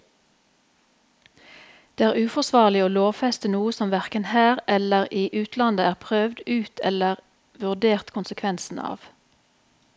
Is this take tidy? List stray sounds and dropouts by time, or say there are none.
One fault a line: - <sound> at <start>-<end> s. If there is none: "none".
none